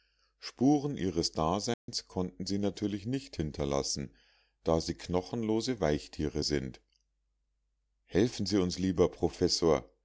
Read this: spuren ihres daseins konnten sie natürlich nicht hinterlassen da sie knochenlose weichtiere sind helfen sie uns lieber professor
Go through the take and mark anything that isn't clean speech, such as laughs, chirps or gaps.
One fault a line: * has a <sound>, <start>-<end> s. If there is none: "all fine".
* has a dropout, 1.7-1.9 s